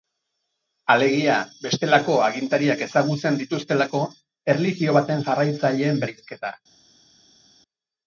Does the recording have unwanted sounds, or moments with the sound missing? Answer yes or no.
no